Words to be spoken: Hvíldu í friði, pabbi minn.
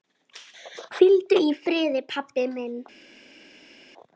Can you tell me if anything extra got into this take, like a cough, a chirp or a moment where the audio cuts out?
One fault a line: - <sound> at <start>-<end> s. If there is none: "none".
none